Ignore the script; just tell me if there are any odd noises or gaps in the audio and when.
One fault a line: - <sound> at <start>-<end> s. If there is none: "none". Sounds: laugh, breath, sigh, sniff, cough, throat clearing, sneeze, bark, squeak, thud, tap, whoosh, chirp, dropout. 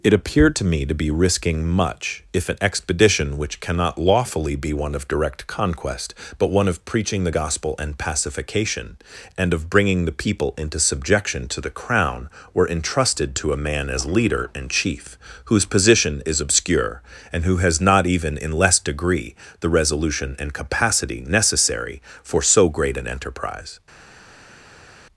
none